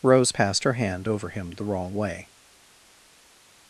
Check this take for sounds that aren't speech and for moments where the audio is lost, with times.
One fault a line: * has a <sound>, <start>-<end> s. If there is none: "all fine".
all fine